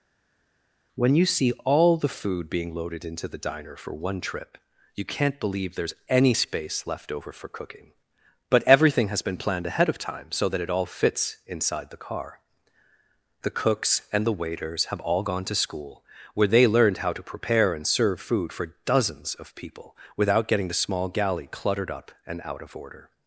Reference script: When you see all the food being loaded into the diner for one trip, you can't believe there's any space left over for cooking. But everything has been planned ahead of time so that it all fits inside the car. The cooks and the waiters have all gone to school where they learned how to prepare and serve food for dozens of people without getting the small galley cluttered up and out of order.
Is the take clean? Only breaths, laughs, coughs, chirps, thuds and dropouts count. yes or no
yes